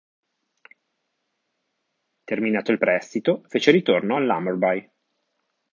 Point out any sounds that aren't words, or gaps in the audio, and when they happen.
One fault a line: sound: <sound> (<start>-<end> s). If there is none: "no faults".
no faults